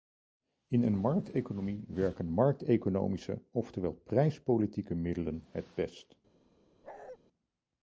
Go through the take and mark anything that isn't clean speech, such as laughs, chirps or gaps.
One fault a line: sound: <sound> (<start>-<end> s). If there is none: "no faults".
sound: bark (6.8-7.2 s)